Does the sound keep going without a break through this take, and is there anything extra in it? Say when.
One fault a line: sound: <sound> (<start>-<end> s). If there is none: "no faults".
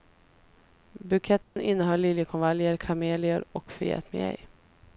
sound: dropout (1.4-1.6 s)